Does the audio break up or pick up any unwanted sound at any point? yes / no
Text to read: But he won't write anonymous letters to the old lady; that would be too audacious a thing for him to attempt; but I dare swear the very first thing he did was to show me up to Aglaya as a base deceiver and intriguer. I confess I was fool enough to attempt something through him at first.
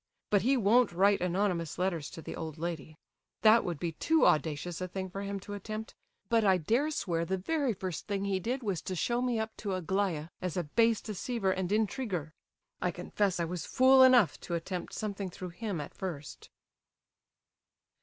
no